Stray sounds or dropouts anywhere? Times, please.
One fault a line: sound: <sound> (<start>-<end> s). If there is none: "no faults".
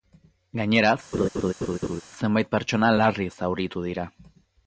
sound: laugh (1.1-2.0 s)